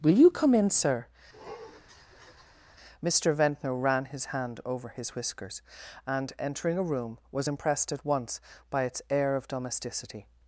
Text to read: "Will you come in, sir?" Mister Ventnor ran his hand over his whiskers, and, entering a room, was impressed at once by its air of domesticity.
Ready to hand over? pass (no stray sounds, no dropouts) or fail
fail